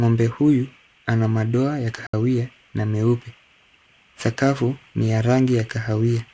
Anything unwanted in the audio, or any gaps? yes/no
yes